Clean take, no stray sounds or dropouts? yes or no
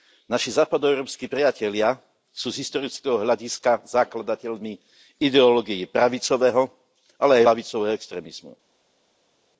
yes